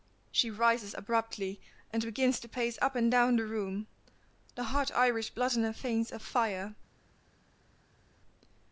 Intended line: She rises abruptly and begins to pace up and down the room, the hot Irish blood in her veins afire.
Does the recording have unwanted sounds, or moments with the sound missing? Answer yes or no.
no